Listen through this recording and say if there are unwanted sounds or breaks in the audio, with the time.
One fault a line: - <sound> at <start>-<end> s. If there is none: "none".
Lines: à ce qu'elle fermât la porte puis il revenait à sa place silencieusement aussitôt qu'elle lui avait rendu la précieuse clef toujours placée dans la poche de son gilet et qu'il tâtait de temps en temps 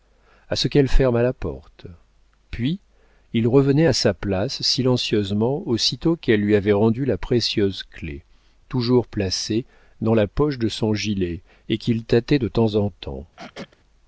- throat clearing at 13.4-13.7 s